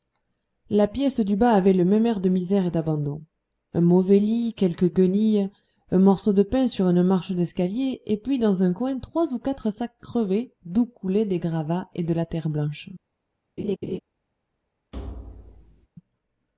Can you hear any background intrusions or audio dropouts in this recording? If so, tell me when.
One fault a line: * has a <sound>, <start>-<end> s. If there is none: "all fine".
* has a laugh, 13.6-14.0 s
* has a thud, 14.9-15.9 s